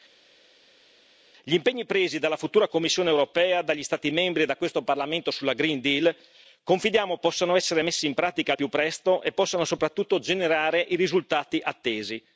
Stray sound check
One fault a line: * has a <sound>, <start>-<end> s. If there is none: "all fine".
all fine